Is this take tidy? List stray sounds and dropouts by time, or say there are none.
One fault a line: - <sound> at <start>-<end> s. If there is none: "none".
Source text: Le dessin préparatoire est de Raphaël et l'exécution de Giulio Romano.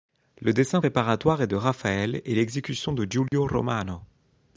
- dropout at 3.3-3.3 s